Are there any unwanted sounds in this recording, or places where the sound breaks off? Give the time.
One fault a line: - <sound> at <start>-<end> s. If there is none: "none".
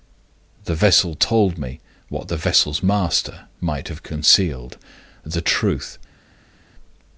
none